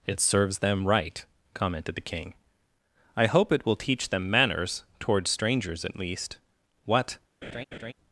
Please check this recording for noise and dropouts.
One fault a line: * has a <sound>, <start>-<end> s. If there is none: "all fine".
* has a laugh, 7.4-7.9 s